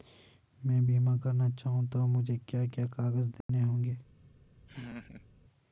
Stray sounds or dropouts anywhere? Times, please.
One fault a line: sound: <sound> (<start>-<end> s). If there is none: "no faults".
sound: dropout (3.4-3.5 s)
sound: laugh (4.7-5.3 s)